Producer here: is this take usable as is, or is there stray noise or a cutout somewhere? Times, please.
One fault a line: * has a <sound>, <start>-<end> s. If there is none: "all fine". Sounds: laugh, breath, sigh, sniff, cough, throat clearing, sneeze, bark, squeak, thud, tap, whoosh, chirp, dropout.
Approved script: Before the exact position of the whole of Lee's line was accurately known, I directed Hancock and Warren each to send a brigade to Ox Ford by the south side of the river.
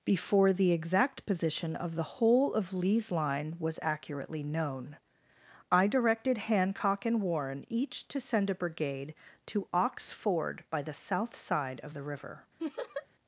* has a laugh, 12.6-13.1 s